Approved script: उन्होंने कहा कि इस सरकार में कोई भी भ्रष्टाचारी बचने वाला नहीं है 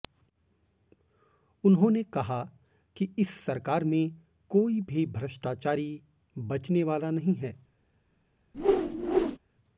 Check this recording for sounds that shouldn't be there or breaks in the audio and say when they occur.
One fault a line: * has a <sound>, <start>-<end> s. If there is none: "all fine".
* has a whoosh, 8.5-9.4 s